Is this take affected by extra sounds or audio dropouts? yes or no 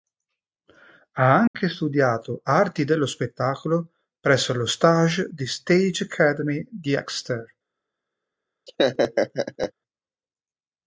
yes